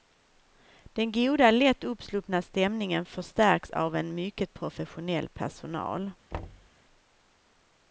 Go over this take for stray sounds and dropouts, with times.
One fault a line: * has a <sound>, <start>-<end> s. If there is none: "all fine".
* has a thud, 6.3-6.7 s